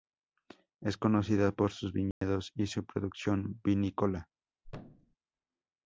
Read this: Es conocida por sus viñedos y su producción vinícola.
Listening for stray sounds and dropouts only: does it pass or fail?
fail